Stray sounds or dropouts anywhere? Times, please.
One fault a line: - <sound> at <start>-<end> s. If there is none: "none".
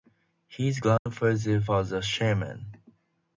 - dropout at 1.0-1.1 s